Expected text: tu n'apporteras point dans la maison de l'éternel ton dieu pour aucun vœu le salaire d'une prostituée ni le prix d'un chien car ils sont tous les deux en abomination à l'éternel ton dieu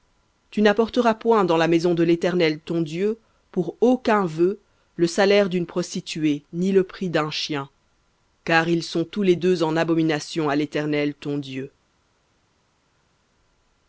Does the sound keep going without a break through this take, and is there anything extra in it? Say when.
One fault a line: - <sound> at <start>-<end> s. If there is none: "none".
none